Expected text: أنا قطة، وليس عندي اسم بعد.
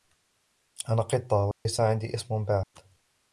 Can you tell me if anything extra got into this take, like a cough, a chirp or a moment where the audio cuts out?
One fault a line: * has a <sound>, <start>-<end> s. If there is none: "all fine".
* has a dropout, 1.5-1.7 s
* has a dropout, 2.6-2.7 s